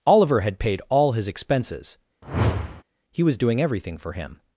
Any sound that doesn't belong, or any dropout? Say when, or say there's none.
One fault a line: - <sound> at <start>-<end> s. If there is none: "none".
- whoosh at 2.2-2.8 s